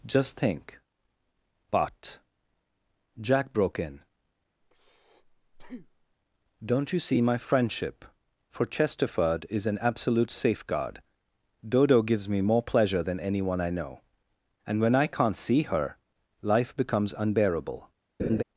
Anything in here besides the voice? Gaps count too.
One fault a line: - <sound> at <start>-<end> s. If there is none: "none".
- breath at 4.6-6.2 s
- laugh at 18.2-18.4 s